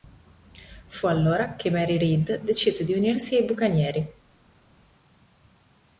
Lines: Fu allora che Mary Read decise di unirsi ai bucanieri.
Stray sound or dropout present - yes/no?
no